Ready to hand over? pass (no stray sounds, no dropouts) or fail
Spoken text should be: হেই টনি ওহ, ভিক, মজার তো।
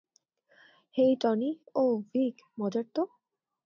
pass